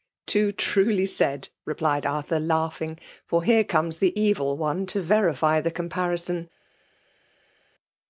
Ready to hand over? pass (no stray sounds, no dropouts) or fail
pass